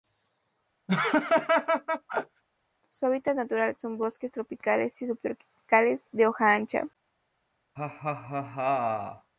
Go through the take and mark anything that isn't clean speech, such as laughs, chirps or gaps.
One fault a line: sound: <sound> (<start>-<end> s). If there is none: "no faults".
sound: laugh (0.9-2.4 s)
sound: laugh (7.8-9.3 s)